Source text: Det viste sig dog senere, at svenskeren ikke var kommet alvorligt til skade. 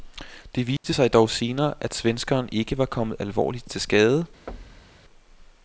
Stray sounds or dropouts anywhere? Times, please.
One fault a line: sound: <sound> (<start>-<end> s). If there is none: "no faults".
sound: dropout (0.8-0.8 s)
sound: thud (4.5-5.0 s)